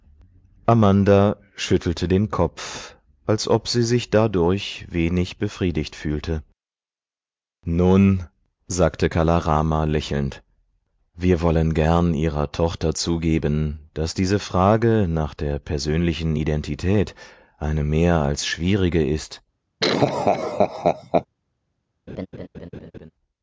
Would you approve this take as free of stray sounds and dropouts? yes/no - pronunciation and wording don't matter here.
no